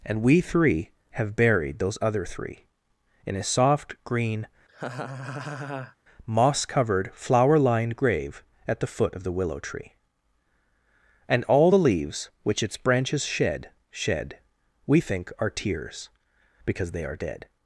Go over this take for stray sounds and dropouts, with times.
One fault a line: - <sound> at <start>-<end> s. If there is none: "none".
- laugh at 4.7-6.0 s